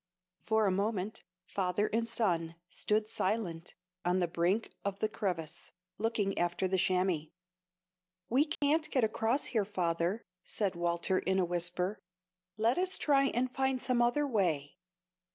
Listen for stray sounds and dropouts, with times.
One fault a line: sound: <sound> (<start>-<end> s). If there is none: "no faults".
sound: dropout (8.5-8.6 s)